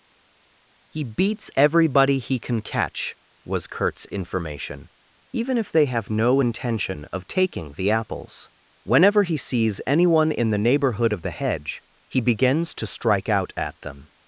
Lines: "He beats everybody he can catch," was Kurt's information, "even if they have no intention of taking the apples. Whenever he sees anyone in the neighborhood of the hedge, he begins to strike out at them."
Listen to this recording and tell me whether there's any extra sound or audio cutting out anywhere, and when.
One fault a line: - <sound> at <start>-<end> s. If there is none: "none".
none